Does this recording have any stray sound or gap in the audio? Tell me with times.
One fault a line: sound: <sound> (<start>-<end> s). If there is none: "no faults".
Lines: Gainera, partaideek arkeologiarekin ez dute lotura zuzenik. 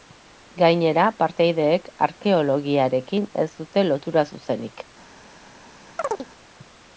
sound: chirp (6.0-6.3 s)